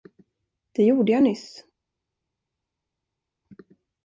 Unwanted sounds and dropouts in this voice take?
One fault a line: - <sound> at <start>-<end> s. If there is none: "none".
none